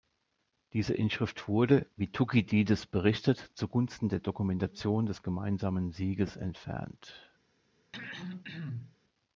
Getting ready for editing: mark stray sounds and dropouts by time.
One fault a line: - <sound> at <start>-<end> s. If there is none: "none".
- throat clearing at 7.9-9.0 s